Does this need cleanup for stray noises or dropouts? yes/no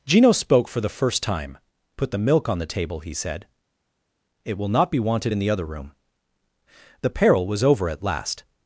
no